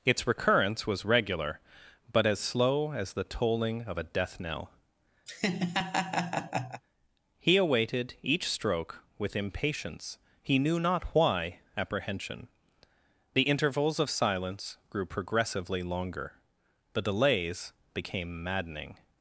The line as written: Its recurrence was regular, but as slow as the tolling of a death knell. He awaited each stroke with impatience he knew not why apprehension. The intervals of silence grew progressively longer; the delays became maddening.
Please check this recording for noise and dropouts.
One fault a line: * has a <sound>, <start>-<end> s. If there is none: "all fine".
* has a laugh, 5.3-6.8 s